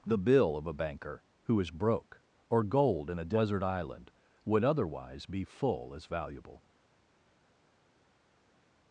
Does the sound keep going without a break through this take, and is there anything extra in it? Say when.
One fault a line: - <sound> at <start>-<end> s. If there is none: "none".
none